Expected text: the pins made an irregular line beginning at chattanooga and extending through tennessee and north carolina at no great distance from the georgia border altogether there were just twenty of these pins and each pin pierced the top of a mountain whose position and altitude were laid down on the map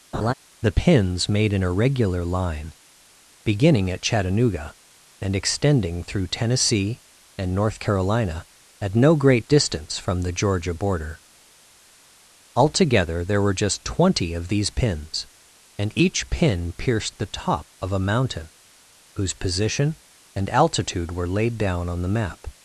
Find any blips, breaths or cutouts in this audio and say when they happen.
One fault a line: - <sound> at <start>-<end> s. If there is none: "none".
- laugh at 0.1-0.3 s